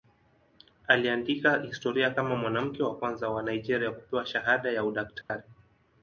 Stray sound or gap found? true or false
true